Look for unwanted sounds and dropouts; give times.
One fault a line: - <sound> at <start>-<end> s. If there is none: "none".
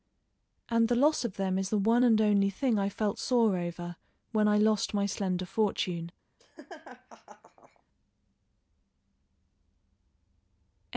- laugh at 6.4-7.8 s